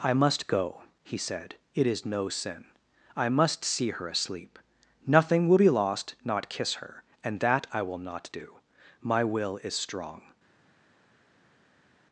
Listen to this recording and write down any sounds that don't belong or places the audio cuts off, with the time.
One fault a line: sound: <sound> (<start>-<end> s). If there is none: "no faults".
no faults